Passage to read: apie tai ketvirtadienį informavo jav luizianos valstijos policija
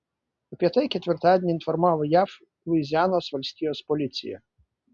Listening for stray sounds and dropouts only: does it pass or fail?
pass